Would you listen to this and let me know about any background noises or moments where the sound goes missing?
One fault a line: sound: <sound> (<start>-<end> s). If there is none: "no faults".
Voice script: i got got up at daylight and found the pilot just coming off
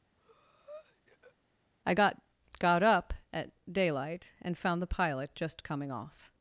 sound: breath (0.2-1.4 s)